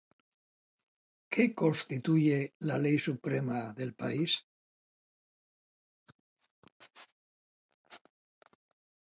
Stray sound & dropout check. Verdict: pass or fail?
pass